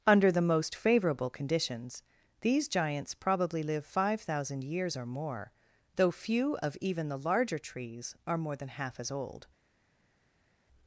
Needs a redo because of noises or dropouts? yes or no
no